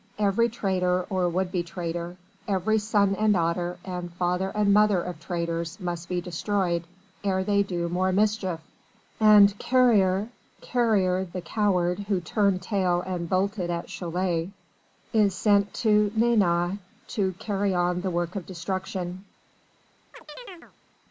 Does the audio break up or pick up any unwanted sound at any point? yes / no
yes